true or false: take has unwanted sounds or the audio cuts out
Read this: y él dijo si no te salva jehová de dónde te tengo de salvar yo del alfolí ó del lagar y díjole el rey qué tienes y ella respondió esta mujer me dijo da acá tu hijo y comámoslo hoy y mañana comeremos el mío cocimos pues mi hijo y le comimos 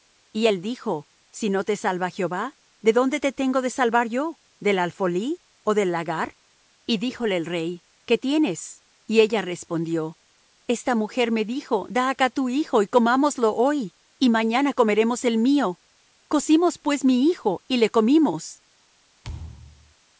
true